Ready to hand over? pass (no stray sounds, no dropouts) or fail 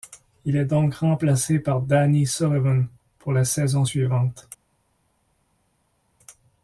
pass